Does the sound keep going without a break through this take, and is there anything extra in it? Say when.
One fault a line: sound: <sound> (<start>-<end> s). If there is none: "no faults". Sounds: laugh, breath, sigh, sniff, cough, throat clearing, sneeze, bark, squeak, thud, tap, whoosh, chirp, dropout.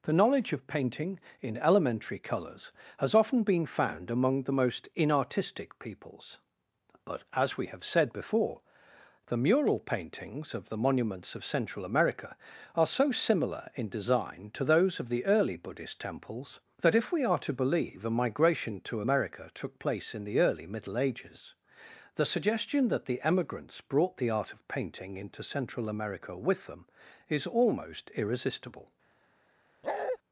sound: bark (29.8-30.2 s)